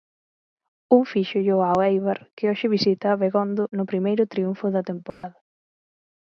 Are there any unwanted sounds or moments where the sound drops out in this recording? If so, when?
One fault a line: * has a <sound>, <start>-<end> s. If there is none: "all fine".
* has a dropout, 5.1-5.2 s